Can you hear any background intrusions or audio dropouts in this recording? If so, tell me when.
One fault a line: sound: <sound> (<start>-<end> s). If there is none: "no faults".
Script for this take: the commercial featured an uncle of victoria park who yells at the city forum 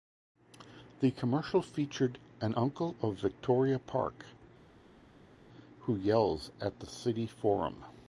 no faults